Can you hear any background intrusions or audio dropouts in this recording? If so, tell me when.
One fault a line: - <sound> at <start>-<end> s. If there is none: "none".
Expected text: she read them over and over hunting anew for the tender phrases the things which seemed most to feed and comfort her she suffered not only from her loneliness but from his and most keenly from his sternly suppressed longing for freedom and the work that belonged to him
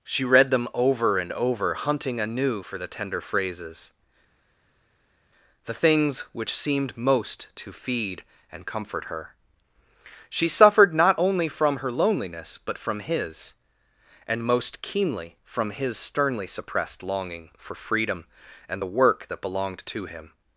none